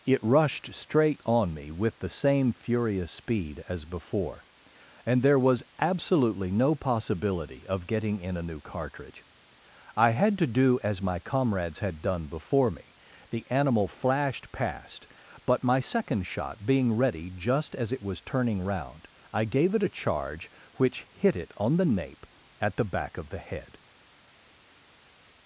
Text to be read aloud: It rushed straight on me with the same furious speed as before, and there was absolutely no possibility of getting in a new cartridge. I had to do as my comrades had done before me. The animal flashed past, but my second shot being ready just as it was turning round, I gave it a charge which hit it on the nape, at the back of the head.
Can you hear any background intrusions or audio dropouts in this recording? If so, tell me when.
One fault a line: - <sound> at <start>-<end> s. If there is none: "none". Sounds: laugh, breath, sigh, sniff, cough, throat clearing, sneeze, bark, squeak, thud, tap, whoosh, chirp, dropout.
none